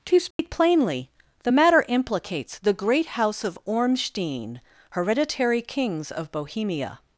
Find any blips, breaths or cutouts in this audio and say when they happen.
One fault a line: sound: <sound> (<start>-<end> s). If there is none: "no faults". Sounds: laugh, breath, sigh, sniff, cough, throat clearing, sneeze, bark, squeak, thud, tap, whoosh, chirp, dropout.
sound: dropout (0.3-0.4 s)